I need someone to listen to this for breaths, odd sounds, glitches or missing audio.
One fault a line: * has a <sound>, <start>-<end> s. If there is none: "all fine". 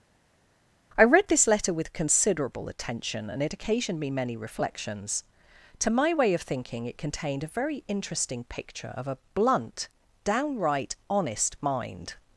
all fine